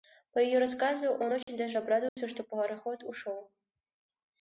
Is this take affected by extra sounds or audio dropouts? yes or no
yes